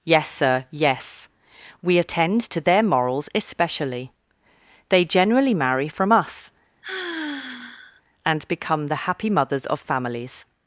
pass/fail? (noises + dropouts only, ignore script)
fail